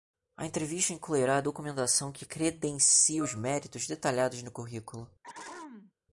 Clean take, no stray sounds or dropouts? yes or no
no